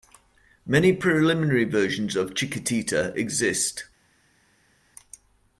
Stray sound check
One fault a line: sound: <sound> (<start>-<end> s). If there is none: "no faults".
no faults